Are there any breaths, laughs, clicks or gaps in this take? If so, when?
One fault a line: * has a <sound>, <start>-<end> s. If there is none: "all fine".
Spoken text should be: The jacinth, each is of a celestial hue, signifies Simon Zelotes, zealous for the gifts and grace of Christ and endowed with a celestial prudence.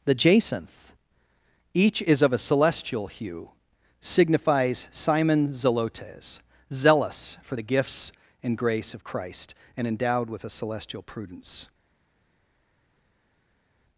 all fine